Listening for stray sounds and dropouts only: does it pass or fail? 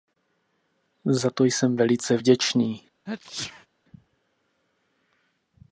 fail